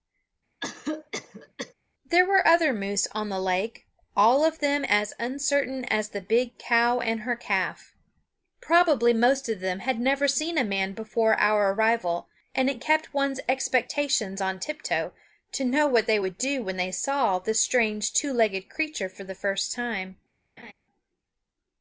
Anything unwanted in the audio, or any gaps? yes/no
yes